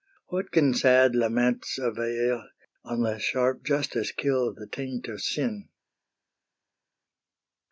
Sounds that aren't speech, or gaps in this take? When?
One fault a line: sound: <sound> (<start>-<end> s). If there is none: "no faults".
no faults